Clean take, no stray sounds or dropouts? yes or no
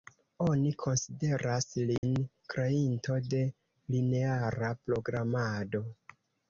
no